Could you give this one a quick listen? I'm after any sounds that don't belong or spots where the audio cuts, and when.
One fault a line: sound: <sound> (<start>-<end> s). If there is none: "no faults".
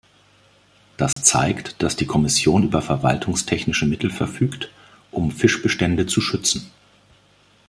sound: dropout (1.1-1.2 s)